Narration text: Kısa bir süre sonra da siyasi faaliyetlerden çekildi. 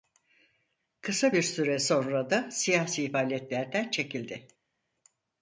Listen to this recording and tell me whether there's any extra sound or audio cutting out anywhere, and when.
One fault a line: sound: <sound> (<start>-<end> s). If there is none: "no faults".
no faults